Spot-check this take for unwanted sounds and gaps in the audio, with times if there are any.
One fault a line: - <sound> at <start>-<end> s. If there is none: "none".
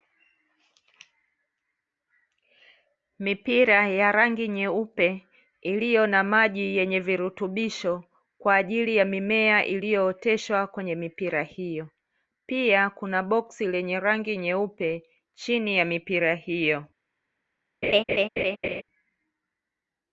- laugh at 17.8-18.8 s